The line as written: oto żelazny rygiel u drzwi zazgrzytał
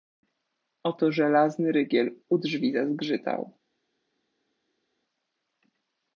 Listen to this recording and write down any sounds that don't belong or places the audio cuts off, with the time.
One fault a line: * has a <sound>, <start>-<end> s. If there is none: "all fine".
all fine